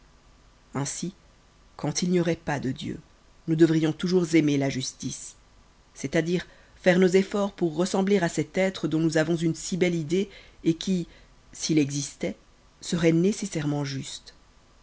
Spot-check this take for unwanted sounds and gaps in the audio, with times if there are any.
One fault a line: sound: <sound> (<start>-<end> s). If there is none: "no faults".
no faults